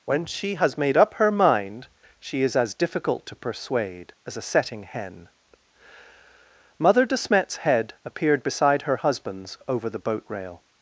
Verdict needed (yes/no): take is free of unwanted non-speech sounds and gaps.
yes